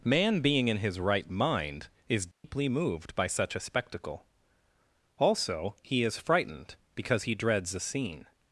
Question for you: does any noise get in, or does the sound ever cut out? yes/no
yes